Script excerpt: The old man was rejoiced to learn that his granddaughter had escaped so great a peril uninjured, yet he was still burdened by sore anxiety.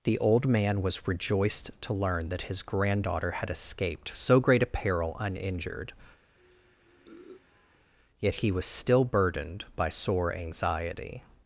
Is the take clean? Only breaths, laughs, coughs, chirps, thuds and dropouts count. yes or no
no